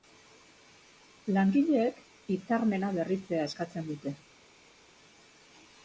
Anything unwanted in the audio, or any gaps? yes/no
no